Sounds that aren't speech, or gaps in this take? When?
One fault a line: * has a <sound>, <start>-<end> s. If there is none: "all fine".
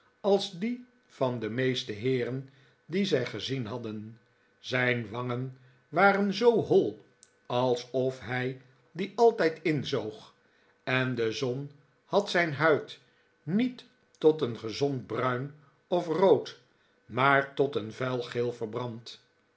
all fine